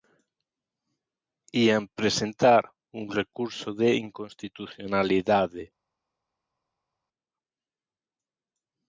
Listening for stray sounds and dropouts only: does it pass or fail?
pass